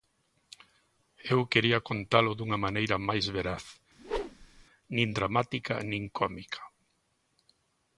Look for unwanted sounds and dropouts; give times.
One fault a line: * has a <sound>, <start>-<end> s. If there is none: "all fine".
* has a whoosh, 4.0-4.7 s